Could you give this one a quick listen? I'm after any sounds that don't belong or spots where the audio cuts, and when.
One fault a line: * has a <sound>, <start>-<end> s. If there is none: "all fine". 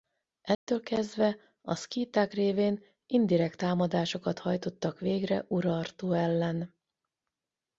* has a dropout, 0.5-0.7 s